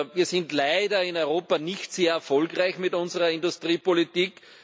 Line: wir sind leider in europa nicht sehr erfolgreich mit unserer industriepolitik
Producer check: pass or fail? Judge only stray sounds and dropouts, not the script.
pass